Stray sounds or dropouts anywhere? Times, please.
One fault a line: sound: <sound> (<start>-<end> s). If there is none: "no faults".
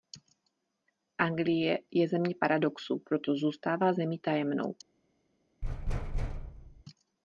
sound: thud (5.6-6.8 s)